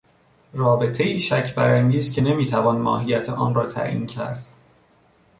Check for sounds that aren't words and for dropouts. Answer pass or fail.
pass